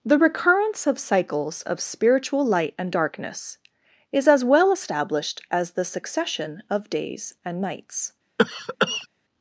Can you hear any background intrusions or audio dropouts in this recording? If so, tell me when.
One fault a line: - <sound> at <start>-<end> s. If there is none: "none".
- cough at 8.4-9.1 s